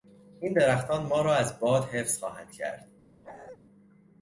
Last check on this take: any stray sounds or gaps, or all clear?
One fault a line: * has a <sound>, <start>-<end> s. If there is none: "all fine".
* has a bark, 3.2-3.6 s